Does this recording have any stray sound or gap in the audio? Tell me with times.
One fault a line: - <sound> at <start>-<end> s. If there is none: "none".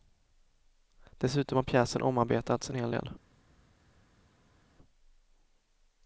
none